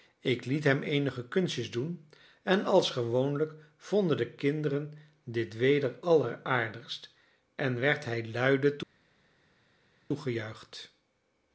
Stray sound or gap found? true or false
false